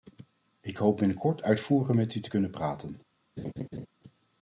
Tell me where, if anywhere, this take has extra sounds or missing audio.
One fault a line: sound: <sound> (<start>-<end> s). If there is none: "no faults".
sound: laugh (3.4-3.9 s)